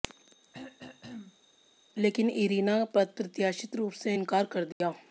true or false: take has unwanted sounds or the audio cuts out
true